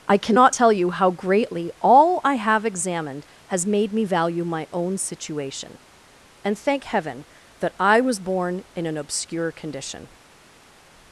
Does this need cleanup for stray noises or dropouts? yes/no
no